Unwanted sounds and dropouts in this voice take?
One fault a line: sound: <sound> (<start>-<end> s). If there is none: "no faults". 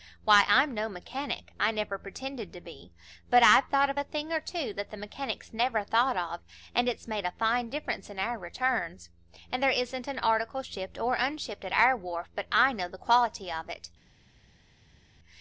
no faults